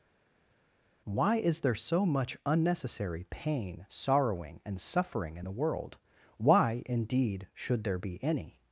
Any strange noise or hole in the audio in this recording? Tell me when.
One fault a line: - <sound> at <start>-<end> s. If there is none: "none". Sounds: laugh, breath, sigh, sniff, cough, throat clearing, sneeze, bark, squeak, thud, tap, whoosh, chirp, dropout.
none